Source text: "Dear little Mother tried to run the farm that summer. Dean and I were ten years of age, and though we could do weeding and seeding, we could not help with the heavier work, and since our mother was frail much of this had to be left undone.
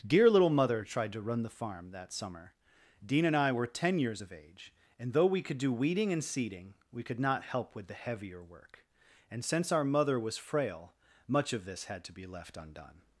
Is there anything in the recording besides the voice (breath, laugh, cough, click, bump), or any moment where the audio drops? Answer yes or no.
no